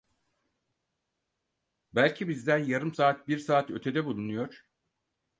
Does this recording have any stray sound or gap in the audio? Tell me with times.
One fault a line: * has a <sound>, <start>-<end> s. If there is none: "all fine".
all fine